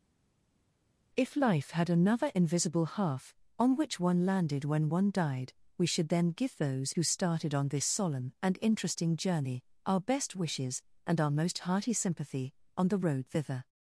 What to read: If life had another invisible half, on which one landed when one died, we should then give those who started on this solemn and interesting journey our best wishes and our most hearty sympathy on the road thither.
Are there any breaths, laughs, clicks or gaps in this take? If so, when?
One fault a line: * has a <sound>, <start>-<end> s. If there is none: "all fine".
all fine